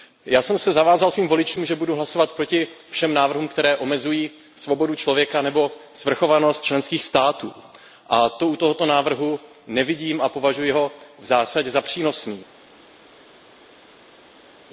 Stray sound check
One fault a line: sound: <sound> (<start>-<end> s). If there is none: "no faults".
no faults